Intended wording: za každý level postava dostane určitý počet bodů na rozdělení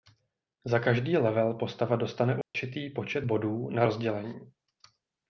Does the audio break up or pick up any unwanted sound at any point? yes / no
yes